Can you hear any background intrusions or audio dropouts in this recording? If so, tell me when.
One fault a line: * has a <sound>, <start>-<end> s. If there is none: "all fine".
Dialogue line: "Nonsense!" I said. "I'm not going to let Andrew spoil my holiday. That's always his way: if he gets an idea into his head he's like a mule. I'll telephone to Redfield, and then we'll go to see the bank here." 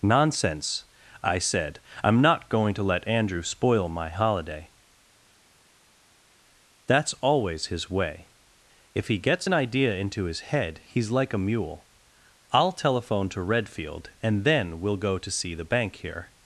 all fine